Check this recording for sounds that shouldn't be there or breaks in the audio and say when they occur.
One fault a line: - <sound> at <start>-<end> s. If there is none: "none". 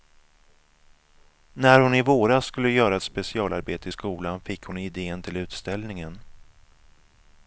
none